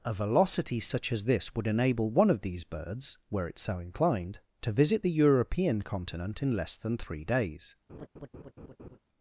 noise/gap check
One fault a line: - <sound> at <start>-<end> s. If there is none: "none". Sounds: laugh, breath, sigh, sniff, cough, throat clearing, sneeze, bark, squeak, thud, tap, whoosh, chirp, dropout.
- laugh at 7.9-9.0 s